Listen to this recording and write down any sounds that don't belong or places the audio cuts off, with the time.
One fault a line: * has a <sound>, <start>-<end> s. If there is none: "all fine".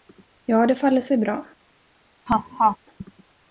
* has a laugh, 2.3-2.8 s